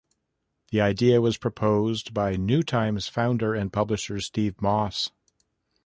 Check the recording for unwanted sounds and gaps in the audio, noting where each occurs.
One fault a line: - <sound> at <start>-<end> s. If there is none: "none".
none